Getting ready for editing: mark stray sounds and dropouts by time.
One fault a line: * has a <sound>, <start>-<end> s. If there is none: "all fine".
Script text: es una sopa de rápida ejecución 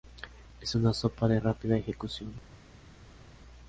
all fine